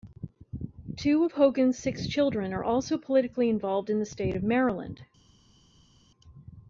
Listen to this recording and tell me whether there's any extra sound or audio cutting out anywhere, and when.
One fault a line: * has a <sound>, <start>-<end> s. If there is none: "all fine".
all fine